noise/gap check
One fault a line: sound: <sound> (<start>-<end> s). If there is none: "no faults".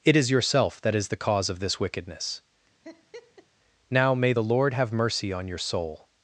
sound: laugh (2.8-3.5 s)